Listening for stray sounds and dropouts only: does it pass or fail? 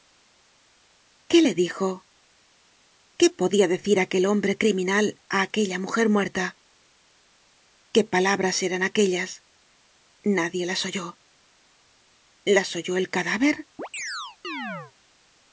fail